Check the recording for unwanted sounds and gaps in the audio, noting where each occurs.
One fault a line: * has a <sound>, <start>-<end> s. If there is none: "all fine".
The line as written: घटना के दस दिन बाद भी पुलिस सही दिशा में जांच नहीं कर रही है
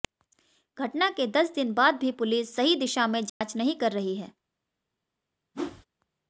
* has a dropout, 3.3-3.4 s
* has a whoosh, 5.5-5.9 s